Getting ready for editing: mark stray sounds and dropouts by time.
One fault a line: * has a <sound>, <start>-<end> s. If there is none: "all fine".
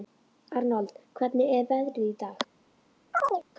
* has a chirp, 3.1-3.4 s